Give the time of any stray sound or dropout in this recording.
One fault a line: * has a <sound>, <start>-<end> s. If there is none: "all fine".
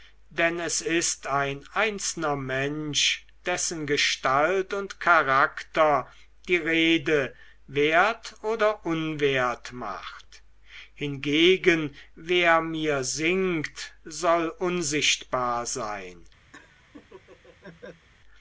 * has a laugh, 16.5-18.1 s